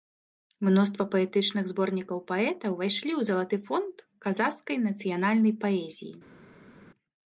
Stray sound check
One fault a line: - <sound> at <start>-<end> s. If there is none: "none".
none